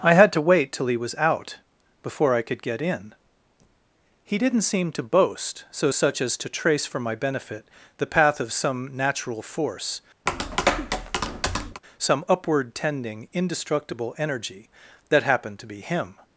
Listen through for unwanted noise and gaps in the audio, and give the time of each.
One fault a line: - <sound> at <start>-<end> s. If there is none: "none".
- tap at 10.3-11.8 s